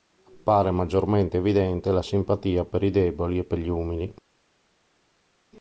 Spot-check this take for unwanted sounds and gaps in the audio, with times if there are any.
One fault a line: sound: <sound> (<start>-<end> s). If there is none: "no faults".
no faults